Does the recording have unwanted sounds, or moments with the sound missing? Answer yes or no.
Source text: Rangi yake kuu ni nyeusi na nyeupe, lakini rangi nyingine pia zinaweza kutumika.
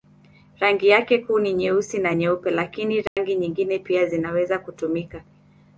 yes